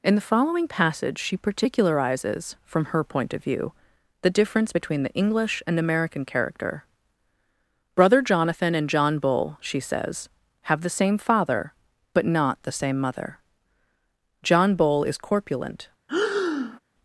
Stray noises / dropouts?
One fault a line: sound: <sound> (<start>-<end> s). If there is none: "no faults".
sound: breath (16.1-16.8 s)